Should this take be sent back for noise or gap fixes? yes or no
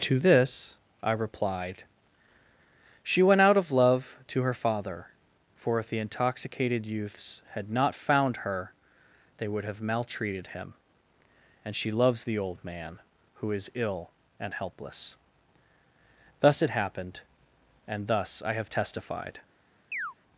yes